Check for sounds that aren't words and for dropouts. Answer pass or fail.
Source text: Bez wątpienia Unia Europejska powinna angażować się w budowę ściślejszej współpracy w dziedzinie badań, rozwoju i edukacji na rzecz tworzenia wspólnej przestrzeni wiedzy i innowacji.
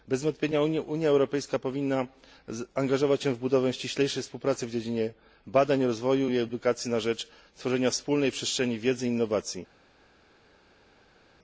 pass